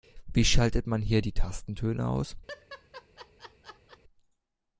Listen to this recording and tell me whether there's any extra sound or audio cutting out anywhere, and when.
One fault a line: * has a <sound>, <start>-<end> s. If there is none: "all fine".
* has a laugh, 2.5-4.0 s